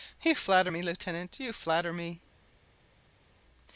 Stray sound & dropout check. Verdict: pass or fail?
pass